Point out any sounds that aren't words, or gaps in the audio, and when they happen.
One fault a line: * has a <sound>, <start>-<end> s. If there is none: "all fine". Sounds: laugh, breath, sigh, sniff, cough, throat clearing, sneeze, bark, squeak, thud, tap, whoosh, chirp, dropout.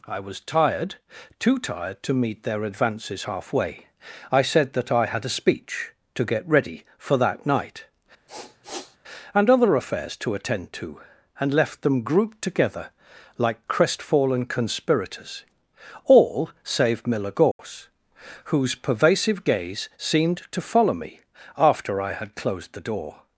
* has a sniff, 8.3-9.0 s
* has a dropout, 17.5-17.6 s